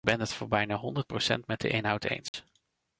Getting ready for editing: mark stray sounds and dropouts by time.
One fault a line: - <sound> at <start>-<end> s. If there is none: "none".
- dropout at 2.3-2.3 s